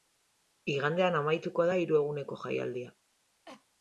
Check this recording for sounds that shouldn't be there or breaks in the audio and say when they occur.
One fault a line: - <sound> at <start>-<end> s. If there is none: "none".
- cough at 3.5-3.7 s